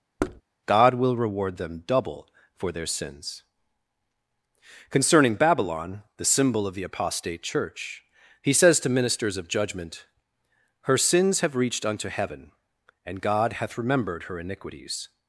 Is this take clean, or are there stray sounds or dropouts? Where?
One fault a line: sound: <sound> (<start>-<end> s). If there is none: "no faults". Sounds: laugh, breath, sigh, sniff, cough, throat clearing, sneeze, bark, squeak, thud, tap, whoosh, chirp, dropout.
sound: thud (0.2-0.4 s)